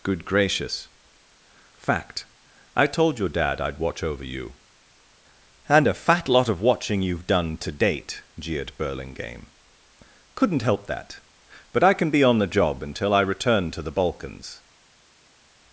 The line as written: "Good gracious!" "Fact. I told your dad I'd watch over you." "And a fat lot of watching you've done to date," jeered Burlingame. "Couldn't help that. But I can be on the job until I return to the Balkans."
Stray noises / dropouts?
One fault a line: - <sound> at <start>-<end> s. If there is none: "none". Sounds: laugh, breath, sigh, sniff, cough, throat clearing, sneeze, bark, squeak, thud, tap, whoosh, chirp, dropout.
none